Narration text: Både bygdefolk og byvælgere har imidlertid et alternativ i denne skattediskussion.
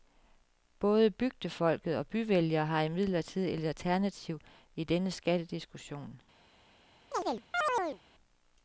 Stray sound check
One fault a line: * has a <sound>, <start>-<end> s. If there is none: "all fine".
* has a chirp, 7.1-8.0 s